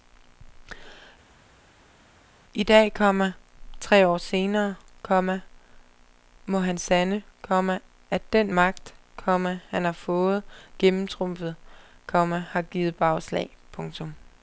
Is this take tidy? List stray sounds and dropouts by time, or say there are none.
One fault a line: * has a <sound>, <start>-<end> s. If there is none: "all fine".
all fine